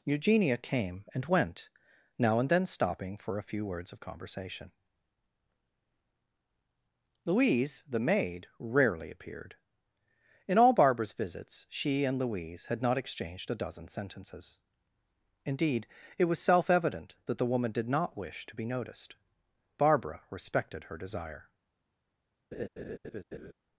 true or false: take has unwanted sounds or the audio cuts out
true